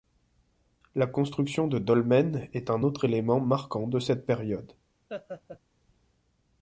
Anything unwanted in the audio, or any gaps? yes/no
yes